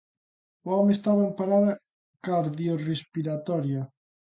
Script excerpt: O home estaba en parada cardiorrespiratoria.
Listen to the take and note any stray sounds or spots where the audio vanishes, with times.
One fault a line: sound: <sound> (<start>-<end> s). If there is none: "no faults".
no faults